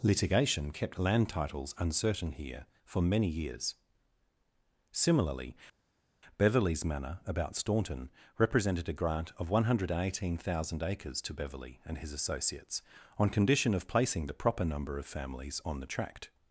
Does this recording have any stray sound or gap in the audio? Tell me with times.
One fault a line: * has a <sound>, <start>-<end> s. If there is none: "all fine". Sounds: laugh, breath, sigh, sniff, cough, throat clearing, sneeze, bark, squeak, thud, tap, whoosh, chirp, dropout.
all fine